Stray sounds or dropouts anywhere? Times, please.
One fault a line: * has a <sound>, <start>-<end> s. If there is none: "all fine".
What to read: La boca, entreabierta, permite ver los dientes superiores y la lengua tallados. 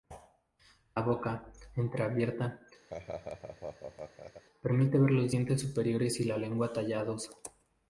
* has a laugh, 2.9-4.4 s